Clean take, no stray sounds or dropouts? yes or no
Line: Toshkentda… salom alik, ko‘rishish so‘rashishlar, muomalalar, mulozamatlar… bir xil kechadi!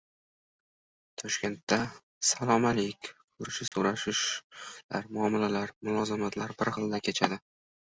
no